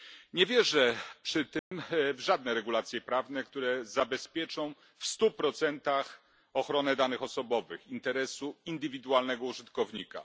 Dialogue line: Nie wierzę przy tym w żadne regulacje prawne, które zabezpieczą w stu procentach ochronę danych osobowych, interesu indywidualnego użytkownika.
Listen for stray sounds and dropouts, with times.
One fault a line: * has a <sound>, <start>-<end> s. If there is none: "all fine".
* has a dropout, 1.6-1.7 s